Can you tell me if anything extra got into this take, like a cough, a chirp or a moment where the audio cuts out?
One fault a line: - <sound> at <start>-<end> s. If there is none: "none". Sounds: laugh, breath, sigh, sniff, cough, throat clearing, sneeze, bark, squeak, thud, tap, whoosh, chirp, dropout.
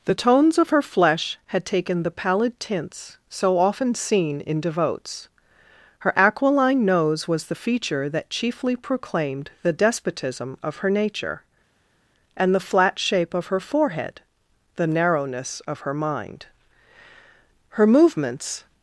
none